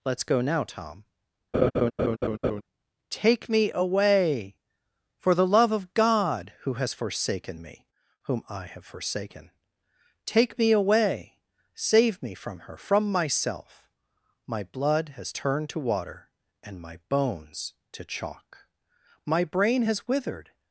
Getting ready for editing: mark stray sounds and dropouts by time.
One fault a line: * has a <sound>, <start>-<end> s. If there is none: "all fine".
* has a laugh, 1.5-2.6 s